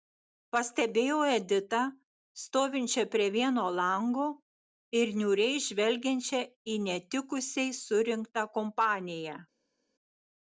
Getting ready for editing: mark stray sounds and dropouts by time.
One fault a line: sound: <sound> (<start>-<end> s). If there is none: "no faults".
no faults